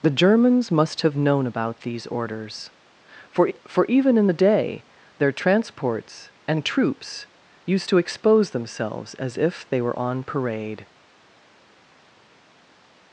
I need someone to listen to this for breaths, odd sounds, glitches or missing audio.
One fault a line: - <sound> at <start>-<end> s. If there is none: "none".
none